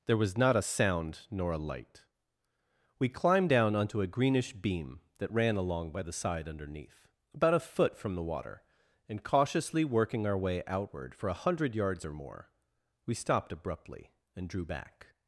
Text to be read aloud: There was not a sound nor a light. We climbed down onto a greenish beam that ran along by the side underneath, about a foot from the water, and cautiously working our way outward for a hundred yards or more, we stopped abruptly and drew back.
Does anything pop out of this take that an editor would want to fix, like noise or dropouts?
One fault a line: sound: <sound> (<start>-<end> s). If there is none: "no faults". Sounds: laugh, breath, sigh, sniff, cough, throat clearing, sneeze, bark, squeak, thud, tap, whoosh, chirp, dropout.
no faults